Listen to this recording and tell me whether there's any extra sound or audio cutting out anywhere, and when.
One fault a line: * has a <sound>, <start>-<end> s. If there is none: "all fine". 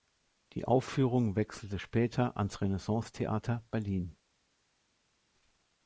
all fine